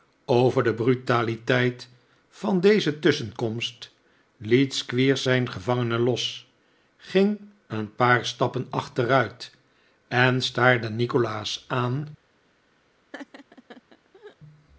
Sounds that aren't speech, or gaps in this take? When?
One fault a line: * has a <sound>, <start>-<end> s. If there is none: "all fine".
* has a laugh, 13.1-14.4 s